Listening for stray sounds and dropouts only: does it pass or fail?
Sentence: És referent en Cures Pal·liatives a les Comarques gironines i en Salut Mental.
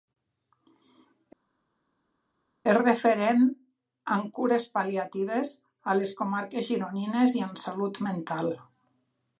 pass